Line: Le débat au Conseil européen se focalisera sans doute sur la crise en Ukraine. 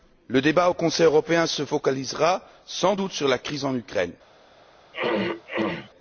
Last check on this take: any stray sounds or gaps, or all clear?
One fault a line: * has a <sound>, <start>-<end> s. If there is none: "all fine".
* has a throat clearing, 4.9-5.9 s